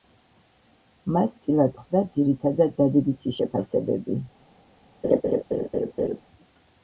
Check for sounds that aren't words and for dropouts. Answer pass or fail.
fail